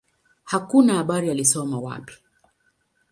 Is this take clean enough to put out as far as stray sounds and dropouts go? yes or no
yes